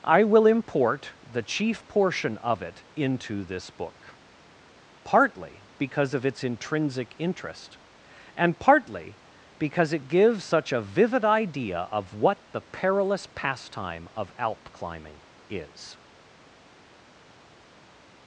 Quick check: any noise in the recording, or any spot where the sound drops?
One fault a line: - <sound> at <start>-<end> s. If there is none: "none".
none